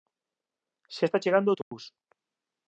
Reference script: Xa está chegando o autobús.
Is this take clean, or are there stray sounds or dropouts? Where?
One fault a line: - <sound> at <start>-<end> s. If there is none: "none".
- dropout at 1.6-1.7 s